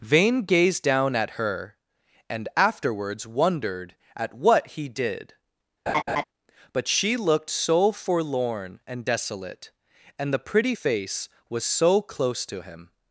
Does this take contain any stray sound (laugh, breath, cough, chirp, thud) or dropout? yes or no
yes